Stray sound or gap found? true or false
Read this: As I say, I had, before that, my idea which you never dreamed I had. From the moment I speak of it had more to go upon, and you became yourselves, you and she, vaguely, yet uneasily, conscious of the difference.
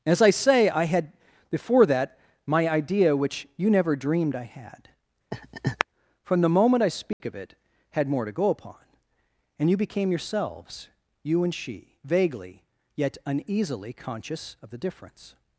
true